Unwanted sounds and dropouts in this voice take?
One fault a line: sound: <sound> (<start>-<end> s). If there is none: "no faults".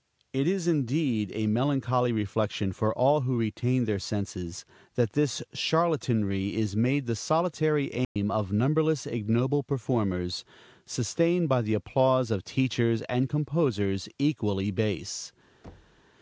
sound: dropout (8.0-8.2 s)
sound: thud (15.6-16.0 s)